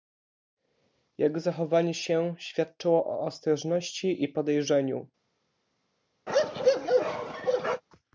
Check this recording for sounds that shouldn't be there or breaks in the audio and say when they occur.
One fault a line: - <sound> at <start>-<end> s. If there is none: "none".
- bark at 6.3-7.8 s